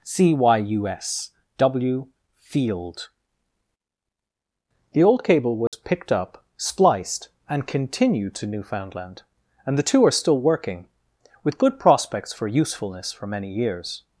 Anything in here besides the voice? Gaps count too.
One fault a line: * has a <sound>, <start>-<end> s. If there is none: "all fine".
* has a dropout, 5.7-5.7 s